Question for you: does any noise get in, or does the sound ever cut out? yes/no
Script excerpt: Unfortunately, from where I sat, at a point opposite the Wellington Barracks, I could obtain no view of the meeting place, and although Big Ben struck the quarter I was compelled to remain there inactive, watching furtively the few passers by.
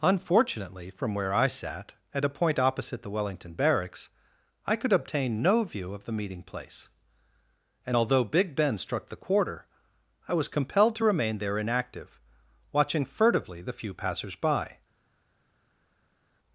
no